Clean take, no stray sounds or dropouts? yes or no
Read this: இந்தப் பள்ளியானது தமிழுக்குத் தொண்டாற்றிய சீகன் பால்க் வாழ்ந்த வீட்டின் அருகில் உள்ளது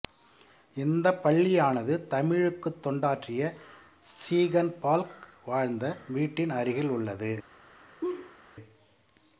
no